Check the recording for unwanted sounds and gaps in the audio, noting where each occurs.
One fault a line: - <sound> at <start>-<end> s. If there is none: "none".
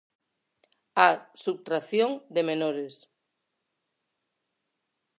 none